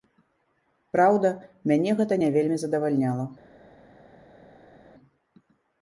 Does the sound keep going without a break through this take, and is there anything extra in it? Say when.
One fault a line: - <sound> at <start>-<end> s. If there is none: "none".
none